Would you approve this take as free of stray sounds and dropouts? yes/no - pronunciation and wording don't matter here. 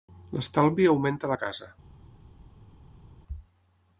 yes